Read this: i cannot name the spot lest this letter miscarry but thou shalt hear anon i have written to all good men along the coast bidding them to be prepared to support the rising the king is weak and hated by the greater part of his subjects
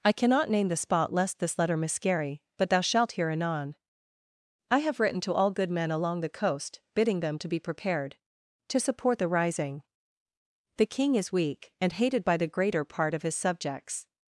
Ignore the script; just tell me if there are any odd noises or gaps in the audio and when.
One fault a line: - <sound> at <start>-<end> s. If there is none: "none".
none